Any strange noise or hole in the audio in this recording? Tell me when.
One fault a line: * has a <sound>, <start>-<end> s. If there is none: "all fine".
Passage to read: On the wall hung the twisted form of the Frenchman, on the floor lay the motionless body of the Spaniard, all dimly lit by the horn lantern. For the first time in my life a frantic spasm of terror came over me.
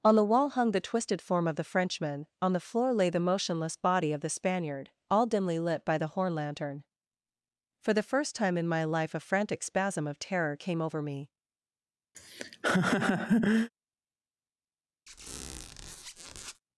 * has a laugh, 12.1-13.7 s
* has a squeak, 15.1-16.6 s